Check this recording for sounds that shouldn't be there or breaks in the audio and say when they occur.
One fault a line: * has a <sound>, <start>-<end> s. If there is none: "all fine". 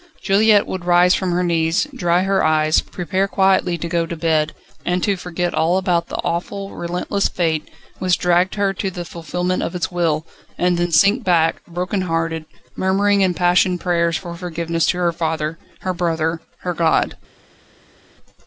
all fine